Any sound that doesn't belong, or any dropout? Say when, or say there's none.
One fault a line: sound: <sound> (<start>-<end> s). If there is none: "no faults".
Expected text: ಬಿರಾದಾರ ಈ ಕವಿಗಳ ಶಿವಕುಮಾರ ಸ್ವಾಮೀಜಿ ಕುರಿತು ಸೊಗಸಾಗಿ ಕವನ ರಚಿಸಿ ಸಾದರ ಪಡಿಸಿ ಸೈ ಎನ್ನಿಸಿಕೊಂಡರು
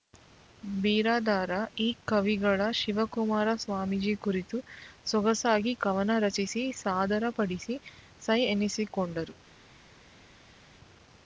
no faults